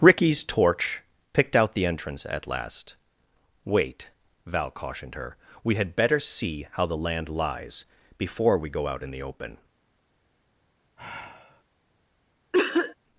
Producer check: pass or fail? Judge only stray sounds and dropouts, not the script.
fail